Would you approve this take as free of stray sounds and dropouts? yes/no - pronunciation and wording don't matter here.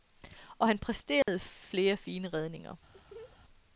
no